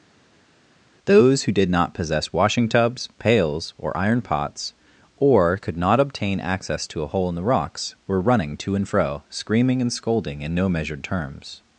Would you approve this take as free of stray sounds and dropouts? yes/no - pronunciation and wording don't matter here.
yes